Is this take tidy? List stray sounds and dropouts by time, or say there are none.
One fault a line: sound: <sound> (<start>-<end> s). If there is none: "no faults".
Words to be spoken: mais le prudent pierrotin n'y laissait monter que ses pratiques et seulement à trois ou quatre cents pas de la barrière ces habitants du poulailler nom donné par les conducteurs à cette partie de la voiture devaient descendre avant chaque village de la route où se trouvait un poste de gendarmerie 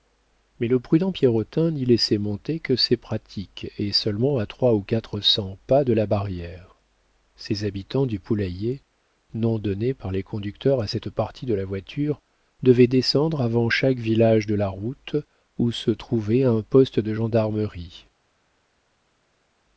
no faults